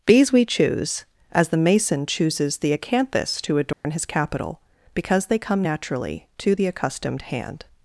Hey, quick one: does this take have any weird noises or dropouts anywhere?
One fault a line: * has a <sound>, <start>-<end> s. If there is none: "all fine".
* has a dropout, 3.7-3.8 s